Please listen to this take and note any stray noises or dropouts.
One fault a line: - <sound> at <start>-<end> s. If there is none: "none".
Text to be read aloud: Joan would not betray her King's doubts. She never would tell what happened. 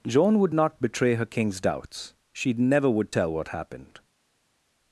none